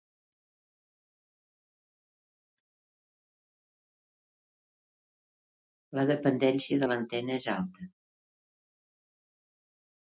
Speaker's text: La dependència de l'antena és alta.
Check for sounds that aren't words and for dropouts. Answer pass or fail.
pass